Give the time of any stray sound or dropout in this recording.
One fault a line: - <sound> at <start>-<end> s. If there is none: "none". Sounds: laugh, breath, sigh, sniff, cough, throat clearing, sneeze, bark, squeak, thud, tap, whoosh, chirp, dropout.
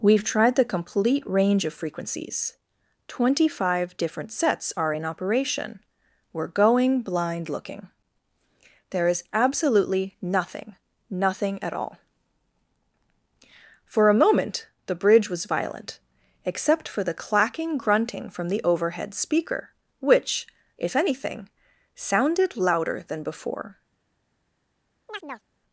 - chirp at 25.1-25.5 s